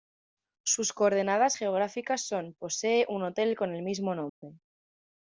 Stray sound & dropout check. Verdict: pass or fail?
fail